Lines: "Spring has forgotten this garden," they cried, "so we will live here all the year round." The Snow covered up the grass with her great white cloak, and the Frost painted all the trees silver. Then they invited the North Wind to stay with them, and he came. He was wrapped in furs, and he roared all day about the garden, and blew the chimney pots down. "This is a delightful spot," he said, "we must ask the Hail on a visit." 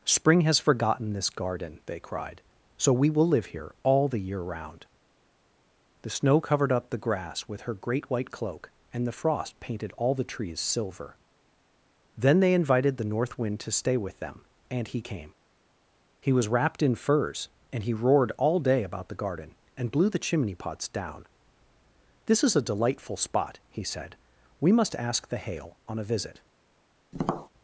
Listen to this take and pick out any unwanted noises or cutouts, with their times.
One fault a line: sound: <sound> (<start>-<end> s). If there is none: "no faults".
sound: tap (27.1-27.5 s)